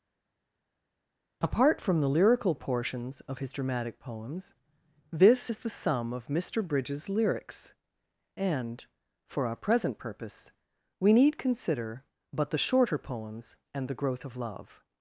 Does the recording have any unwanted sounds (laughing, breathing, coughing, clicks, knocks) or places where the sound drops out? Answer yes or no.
no